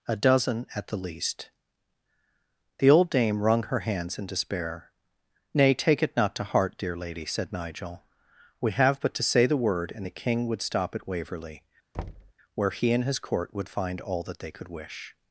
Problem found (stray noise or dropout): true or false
true